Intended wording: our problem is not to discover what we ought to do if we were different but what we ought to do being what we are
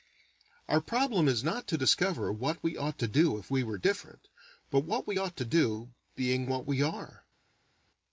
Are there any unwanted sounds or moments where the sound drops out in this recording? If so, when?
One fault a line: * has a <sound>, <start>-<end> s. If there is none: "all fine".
all fine